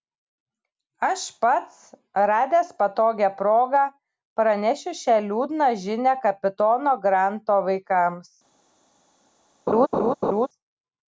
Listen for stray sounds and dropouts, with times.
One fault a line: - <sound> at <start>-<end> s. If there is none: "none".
- laugh at 9.7-10.5 s